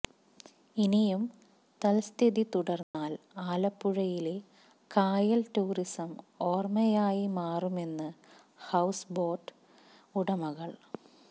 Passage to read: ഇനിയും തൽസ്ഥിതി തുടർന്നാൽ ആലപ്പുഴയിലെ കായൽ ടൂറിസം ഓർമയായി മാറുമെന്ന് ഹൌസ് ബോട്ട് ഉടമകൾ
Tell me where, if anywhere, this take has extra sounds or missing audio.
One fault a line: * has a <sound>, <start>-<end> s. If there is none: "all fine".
* has a dropout, 2.8-2.9 s